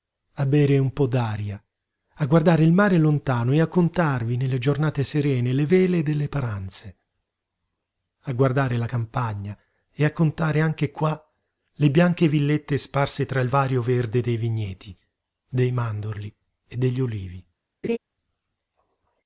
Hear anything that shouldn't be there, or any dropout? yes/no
yes